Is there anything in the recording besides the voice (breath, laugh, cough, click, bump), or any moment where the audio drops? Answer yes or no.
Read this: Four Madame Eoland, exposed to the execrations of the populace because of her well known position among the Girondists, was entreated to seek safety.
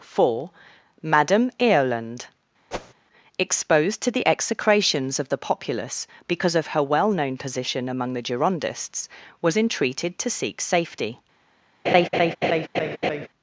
yes